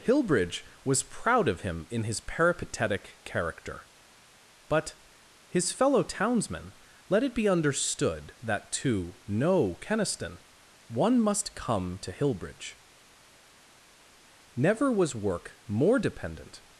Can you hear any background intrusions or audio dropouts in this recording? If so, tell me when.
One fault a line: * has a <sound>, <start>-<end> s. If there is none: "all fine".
all fine